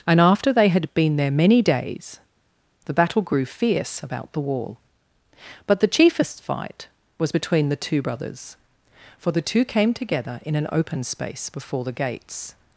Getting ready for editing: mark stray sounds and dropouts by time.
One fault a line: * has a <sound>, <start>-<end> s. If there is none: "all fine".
all fine